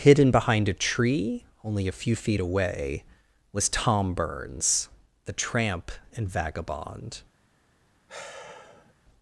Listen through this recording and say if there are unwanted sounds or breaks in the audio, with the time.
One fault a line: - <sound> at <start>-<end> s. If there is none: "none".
- sigh at 8.1-8.9 s